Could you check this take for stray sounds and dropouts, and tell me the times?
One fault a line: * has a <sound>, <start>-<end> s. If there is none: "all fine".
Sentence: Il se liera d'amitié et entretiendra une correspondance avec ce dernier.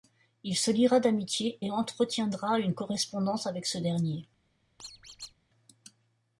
* has a squeak, 4.8-5.3 s